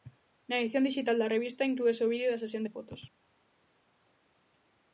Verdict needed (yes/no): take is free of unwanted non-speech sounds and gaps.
yes